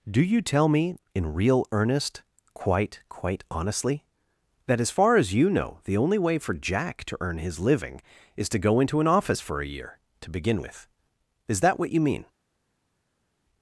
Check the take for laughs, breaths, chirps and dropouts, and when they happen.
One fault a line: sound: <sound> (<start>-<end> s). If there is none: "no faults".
no faults